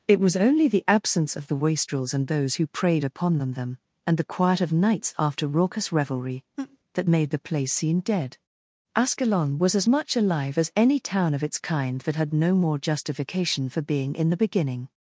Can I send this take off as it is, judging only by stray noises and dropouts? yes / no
no